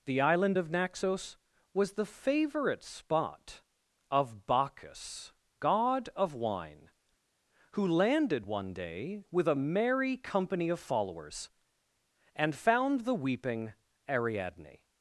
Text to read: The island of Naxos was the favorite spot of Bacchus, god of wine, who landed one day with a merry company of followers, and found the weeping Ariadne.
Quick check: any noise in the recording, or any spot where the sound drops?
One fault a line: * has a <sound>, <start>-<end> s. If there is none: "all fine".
all fine